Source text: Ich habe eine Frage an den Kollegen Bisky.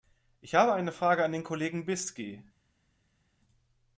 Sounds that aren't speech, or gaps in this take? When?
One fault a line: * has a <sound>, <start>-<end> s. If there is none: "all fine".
all fine